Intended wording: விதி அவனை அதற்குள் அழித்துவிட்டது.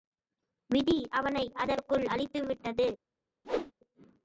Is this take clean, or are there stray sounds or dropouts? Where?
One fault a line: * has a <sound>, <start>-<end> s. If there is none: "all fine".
* has a whoosh, 3.4-3.7 s